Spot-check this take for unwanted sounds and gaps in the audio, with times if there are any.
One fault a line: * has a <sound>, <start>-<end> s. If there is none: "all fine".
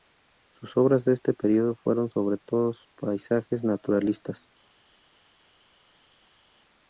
all fine